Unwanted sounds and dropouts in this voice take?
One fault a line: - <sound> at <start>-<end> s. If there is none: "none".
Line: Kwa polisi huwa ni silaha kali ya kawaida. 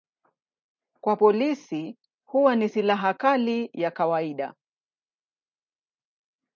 none